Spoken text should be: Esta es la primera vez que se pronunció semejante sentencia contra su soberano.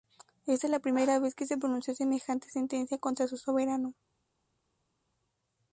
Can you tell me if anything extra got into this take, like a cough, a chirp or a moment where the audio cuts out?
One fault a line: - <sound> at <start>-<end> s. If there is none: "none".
none